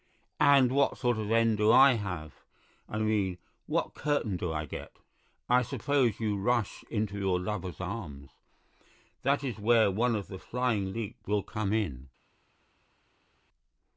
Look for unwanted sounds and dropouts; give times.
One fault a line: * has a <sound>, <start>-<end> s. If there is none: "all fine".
all fine